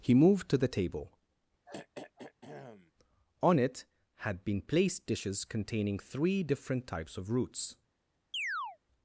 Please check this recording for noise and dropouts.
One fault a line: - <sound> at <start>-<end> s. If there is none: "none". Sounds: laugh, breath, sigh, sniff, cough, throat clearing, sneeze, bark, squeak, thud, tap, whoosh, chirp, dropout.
- throat clearing at 1.7-2.9 s
- chirp at 8.3-8.8 s